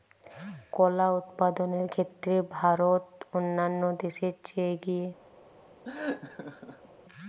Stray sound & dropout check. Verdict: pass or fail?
fail